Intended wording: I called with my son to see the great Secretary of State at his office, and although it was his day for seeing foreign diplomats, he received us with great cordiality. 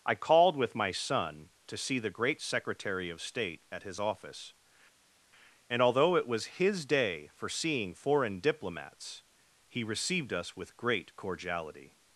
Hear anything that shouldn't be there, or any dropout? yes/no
no